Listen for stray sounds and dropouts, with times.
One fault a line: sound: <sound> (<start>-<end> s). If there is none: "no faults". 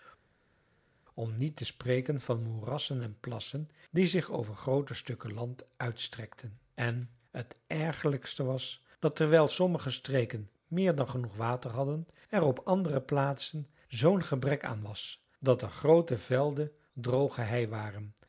no faults